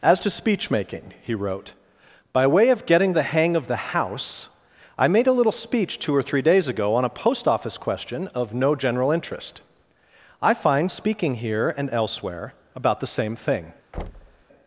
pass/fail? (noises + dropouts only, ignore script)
fail